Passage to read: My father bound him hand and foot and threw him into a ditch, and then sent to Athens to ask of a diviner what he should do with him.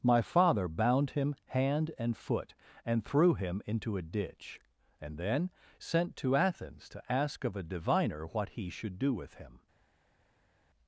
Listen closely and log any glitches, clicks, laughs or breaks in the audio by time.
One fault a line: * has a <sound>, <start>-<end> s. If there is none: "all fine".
all fine